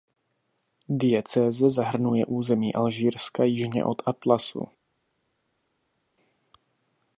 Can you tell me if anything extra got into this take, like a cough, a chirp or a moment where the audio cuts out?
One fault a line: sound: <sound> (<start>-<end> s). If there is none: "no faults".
no faults